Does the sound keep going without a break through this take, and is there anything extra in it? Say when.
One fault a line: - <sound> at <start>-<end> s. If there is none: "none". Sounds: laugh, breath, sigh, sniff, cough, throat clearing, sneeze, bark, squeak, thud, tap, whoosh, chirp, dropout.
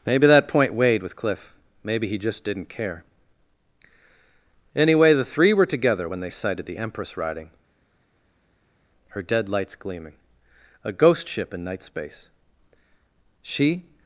none